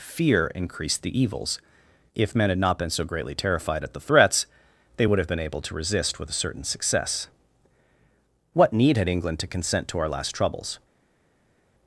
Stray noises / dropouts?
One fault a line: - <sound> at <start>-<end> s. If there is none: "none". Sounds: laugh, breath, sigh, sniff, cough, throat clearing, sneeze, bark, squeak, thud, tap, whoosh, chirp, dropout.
none